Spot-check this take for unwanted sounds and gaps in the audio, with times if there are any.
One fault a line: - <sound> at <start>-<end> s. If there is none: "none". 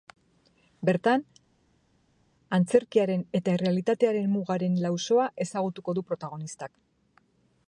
none